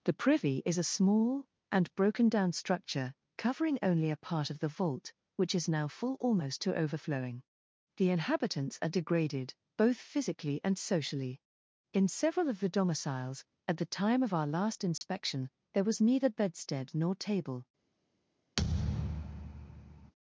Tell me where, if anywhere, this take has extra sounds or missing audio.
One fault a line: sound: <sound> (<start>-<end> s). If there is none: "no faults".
sound: dropout (15.0-15.0 s)
sound: thud (18.6-20.1 s)